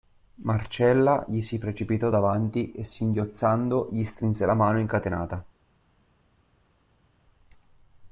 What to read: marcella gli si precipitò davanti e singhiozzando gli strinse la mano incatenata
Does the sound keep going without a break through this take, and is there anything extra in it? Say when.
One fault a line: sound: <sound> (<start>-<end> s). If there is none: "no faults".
no faults